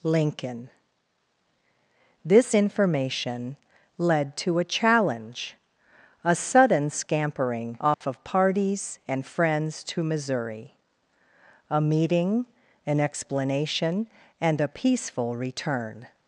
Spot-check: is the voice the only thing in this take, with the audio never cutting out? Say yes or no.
no